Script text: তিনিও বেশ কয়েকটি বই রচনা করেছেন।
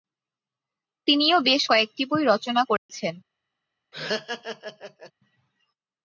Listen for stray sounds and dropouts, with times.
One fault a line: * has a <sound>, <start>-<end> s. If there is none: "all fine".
* has a dropout, 2.8-2.9 s
* has a laugh, 3.9-5.1 s